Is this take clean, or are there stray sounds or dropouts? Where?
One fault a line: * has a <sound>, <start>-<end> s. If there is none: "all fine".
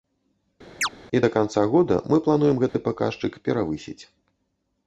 * has a chirp, 0.8-0.9 s
* has a dropout, 2.7-2.7 s